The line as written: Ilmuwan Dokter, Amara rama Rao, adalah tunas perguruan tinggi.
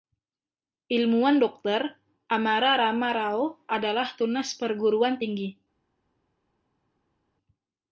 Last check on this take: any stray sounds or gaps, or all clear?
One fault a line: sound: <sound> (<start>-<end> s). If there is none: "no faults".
no faults